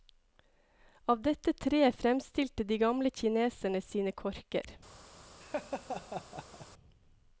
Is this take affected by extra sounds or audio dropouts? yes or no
yes